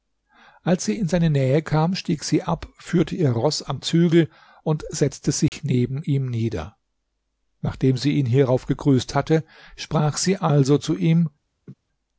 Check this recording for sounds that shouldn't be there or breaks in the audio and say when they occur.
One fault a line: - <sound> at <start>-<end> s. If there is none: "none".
- dropout at 5.5-5.5 s
- laugh at 11.7-11.7 s